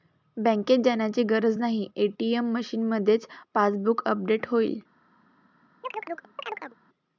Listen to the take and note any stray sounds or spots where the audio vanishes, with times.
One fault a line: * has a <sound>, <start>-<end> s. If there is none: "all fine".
* has a chirp, 5.8-6.8 s